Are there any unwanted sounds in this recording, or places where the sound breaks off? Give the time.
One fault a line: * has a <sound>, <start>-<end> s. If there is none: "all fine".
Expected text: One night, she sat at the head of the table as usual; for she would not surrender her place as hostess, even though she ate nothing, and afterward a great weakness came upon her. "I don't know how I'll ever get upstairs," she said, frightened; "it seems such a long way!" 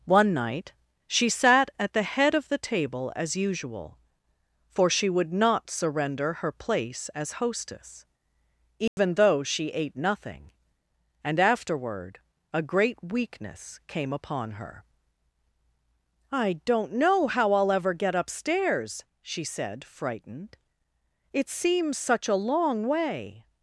* has a dropout, 8.9-9.0 s